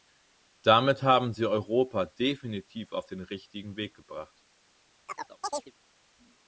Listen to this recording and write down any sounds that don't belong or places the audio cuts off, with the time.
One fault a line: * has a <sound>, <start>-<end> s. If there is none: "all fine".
* has a chirp, 5.1-5.7 s